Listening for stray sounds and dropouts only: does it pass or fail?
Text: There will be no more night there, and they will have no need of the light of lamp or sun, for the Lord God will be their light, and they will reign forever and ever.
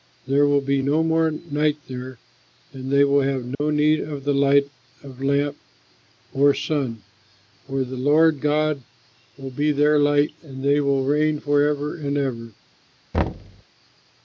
fail